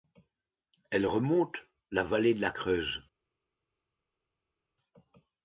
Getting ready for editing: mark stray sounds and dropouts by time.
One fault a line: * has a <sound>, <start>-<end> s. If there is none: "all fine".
all fine